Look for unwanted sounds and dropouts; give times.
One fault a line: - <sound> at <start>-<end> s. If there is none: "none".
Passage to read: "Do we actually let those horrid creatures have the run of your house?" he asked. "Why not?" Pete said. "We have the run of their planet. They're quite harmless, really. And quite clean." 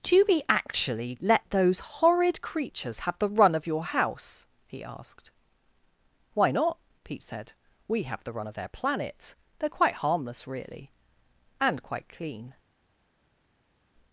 none